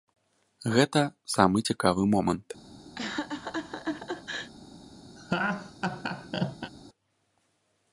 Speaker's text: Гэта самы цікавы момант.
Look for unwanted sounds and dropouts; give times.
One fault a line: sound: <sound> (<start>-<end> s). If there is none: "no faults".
sound: laugh (3.0-4.5 s)
sound: laugh (5.2-6.7 s)